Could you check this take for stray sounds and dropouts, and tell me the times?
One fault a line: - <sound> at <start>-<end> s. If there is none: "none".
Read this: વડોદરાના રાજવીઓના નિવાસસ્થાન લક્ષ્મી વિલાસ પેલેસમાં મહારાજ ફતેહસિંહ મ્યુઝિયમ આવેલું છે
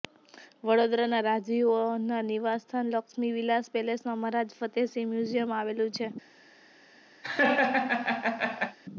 - laugh at 7.2-8.8 s